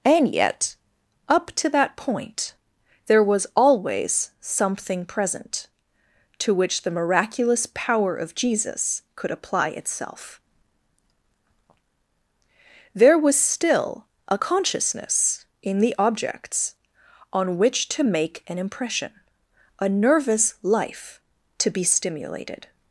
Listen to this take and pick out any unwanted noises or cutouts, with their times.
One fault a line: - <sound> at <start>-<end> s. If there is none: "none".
none